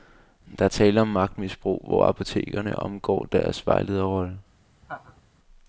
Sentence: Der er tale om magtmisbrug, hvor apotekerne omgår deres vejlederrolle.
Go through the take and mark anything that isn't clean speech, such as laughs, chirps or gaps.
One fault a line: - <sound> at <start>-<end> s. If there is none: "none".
- laugh at 4.8-5.2 s